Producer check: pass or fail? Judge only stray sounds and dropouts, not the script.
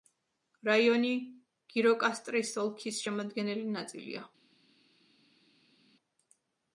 pass